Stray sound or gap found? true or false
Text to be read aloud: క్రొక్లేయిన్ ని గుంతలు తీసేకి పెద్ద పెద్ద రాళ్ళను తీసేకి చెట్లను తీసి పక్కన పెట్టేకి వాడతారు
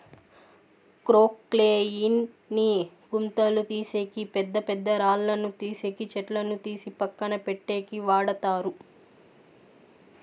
false